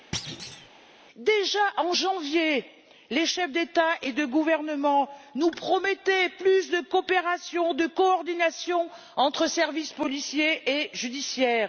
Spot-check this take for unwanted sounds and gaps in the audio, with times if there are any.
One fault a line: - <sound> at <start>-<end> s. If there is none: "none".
- thud at 0.1-0.7 s